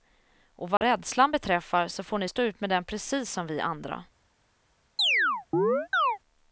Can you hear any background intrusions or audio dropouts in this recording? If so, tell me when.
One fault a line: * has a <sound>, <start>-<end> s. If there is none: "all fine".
* has a dropout, 0.8-0.8 s
* has a chirp, 5.0-6.2 s